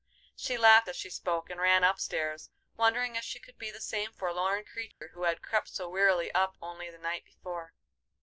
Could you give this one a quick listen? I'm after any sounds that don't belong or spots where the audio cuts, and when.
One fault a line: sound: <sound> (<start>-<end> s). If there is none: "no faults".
sound: dropout (4.9-5.0 s)